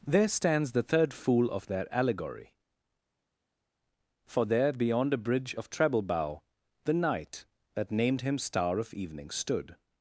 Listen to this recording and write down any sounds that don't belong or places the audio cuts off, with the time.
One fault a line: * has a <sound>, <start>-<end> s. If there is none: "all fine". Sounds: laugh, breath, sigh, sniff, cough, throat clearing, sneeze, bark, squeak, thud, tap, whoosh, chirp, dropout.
all fine